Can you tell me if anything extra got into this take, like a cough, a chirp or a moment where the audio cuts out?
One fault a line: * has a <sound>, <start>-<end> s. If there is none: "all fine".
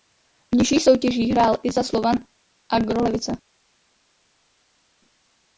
all fine